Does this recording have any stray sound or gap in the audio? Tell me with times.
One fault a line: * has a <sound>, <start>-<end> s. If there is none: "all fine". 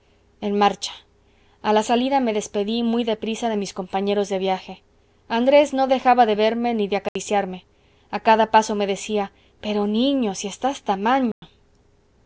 * has a dropout, 7.1-7.2 s
* has a dropout, 11.3-11.4 s